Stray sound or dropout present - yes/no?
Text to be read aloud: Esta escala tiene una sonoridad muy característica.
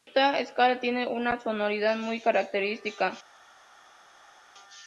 no